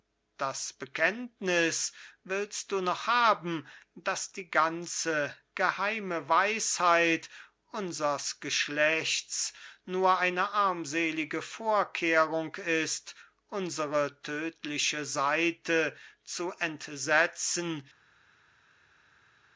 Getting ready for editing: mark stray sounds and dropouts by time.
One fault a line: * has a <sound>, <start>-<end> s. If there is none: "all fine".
all fine